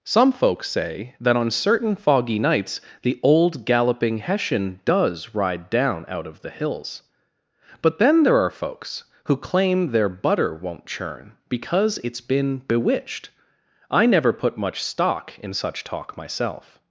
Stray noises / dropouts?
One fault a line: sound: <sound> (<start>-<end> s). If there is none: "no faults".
no faults